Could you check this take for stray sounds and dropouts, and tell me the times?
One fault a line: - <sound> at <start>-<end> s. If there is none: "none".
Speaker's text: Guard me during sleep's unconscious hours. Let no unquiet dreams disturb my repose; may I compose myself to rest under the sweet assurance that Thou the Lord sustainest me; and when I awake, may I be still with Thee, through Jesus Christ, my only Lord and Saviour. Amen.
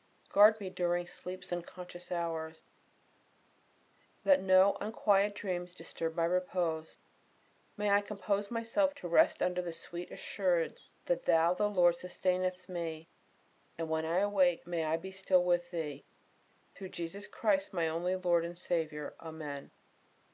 none